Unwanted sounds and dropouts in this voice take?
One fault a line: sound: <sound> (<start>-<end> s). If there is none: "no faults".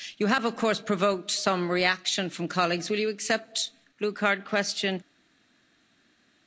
no faults